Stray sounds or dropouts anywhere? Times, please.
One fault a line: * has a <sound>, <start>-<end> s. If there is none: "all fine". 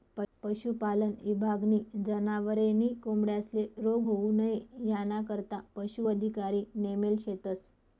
all fine